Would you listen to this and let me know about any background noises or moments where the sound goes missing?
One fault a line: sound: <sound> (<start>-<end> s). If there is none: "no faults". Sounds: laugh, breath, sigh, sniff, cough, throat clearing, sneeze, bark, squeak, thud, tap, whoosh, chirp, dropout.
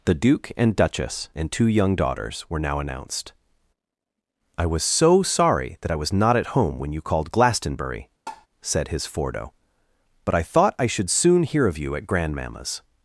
sound: tap (8.3-8.5 s)